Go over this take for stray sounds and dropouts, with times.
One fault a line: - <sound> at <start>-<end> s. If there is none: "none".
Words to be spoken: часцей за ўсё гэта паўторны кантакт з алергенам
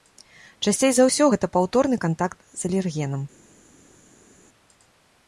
none